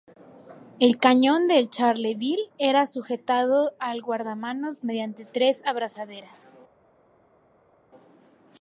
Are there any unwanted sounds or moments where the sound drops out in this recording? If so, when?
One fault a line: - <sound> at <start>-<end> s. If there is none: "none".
none